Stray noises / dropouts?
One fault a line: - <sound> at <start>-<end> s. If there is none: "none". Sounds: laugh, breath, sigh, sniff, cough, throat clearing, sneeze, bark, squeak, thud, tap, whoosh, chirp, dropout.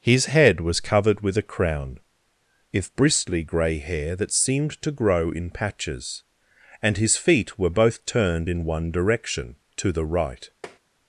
- tap at 10.6-10.8 s